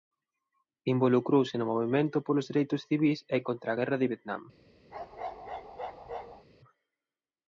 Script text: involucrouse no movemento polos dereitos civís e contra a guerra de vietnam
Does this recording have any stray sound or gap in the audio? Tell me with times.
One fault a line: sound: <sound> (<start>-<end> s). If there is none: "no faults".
sound: bark (4.9-6.5 s)